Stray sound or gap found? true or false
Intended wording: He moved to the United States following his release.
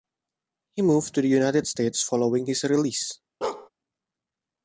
true